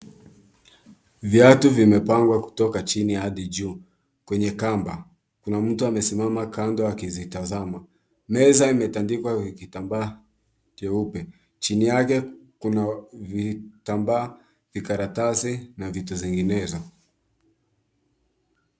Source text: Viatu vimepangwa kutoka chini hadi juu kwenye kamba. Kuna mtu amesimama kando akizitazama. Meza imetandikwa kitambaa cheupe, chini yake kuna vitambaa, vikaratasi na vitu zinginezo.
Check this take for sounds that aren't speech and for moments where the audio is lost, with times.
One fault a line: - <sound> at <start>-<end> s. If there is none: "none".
none